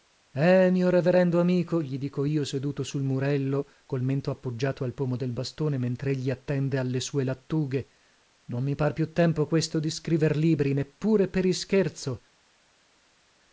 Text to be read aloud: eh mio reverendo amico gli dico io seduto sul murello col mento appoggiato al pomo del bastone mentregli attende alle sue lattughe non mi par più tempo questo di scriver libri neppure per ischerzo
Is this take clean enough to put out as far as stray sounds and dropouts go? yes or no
yes